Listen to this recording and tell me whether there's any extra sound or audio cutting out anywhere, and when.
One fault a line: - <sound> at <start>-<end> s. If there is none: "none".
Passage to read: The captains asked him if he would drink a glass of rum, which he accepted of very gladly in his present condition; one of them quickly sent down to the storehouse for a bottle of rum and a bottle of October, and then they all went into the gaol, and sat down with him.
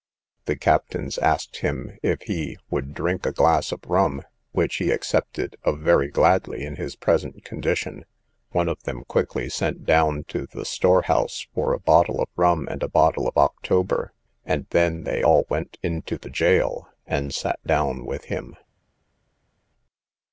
none